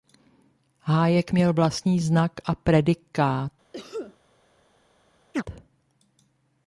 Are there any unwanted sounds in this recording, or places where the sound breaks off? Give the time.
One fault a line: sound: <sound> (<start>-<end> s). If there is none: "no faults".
sound: cough (3.7-4.2 s)
sound: chirp (5.3-5.4 s)